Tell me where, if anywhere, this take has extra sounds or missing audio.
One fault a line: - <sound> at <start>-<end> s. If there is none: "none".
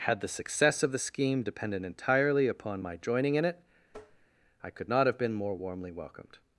- tap at 3.9-4.3 s